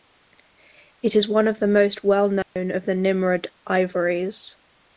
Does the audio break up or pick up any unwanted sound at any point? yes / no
yes